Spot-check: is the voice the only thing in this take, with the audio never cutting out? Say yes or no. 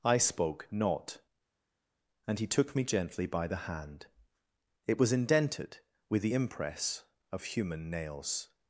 yes